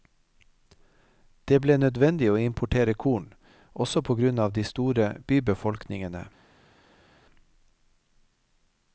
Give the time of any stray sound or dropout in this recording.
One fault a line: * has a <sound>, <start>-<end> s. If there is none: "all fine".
all fine